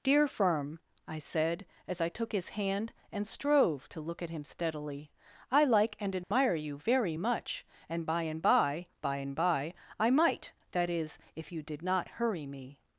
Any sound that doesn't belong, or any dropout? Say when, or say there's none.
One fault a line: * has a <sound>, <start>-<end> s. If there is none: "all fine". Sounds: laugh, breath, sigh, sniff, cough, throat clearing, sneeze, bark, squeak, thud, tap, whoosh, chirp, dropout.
* has a dropout, 6.2-6.3 s